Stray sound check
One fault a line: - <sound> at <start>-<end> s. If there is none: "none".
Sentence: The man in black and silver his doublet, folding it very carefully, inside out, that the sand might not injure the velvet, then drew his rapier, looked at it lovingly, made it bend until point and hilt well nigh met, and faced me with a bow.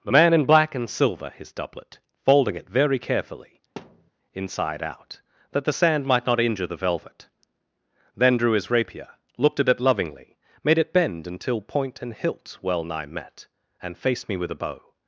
- thud at 3.8-4.1 s